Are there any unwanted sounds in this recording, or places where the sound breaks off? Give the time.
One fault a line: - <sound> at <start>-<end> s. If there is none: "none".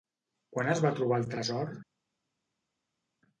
none